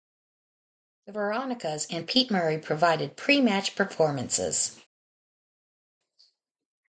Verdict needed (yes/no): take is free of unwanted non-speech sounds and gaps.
yes